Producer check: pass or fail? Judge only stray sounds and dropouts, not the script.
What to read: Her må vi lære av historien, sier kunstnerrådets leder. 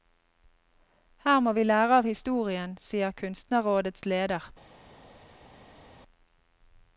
pass